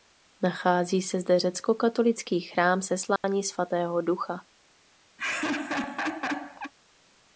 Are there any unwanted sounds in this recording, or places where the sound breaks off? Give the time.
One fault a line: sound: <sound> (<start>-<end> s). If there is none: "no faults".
sound: dropout (3.2-3.2 s)
sound: laugh (5.2-6.7 s)